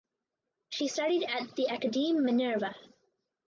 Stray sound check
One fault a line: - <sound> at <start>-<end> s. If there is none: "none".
none